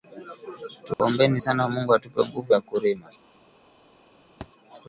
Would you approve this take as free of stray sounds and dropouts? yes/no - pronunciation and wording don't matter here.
no